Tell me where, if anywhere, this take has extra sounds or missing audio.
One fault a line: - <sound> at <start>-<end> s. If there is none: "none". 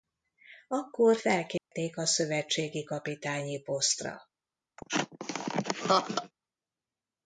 - dropout at 1.6-1.7 s
- laugh at 4.8-6.3 s